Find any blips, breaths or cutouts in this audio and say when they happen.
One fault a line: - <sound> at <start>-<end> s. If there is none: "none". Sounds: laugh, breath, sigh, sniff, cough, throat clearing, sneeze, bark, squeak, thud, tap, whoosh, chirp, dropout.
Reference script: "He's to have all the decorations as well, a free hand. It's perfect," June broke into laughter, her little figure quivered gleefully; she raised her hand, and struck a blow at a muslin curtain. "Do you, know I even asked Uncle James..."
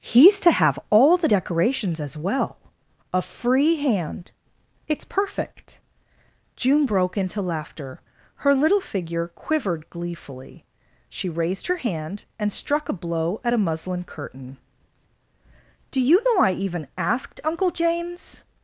none